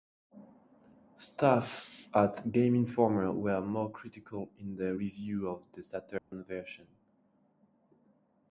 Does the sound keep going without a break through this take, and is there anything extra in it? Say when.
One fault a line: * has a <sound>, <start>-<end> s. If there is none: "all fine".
* has a dropout, 6.2-6.3 s